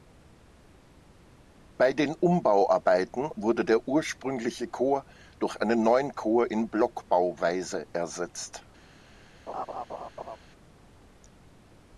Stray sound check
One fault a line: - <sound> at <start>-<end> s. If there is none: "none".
- laugh at 9.5-10.4 s